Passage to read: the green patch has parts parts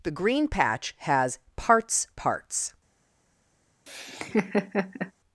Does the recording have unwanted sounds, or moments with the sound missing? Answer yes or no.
yes